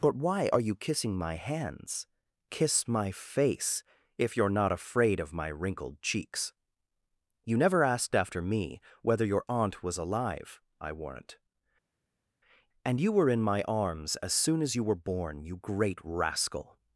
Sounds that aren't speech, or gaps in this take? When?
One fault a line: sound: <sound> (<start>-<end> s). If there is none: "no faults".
no faults